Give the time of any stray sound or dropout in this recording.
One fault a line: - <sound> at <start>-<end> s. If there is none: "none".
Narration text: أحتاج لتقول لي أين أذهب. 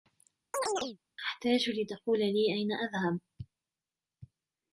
- chirp at 0.5-1.0 s